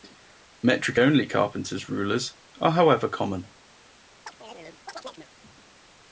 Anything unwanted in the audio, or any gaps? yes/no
yes